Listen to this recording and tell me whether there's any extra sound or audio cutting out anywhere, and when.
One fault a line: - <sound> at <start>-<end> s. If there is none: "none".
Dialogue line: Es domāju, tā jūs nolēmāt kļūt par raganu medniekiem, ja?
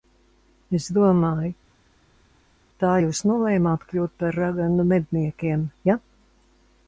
none